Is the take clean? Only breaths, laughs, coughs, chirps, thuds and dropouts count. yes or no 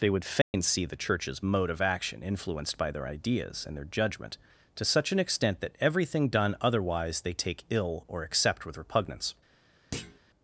no